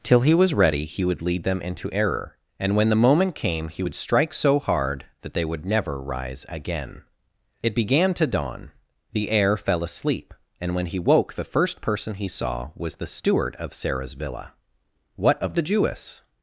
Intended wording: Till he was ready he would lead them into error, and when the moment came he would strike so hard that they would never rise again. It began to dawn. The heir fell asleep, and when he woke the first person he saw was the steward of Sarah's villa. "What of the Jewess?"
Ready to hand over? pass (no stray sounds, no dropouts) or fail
pass